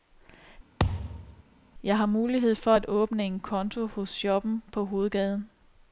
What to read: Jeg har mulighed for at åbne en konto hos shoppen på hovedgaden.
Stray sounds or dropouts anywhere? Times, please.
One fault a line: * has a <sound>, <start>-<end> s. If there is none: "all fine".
* has a thud, 0.8-1.4 s